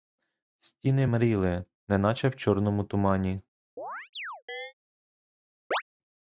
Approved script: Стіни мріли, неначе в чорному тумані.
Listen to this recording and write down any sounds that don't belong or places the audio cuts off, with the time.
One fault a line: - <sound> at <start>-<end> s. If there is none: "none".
- chirp at 3.8-4.7 s
- chirp at 5.7-5.8 s